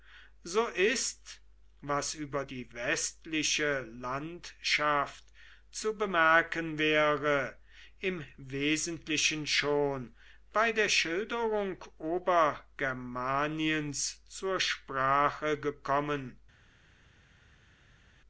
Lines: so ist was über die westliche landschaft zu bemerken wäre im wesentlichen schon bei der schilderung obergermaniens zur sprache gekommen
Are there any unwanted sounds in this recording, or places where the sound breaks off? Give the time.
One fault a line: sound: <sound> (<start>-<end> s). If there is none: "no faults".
no faults